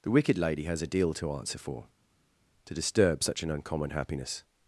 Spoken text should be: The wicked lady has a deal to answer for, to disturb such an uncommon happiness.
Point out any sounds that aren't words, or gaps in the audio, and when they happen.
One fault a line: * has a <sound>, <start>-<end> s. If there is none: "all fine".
all fine